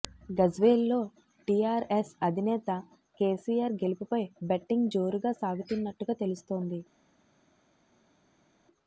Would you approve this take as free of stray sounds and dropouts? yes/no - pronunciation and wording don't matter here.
yes